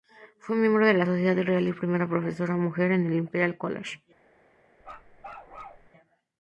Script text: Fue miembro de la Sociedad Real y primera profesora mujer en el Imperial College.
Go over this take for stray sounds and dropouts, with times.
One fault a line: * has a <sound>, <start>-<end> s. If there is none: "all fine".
* has a bark, 4.8-5.9 s